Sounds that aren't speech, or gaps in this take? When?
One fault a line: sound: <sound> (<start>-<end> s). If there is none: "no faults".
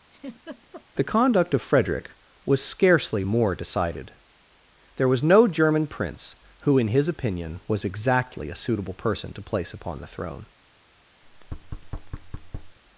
sound: laugh (0.1-0.9 s)
sound: thud (11.2-12.8 s)